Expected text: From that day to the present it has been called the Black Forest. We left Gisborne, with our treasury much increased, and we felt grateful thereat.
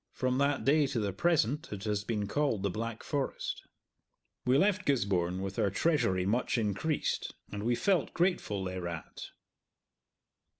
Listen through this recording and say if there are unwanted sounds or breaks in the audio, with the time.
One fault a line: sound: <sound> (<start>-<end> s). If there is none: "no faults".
no faults